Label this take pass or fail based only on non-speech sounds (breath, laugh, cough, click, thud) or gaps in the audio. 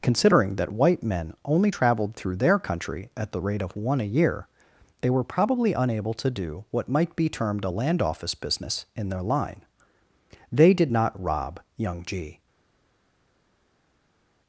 pass